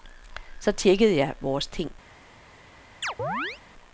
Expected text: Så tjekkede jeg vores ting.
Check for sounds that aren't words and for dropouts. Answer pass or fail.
fail